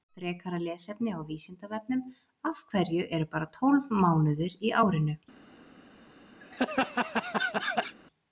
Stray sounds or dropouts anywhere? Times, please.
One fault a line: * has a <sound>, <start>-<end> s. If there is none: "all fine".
* has a laugh, 6.4-8.0 s